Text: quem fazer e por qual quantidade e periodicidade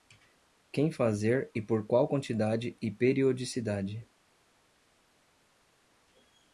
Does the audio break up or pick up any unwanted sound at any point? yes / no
no